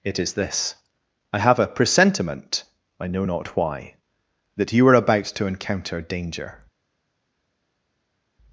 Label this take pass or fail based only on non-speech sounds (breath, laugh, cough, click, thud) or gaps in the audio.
pass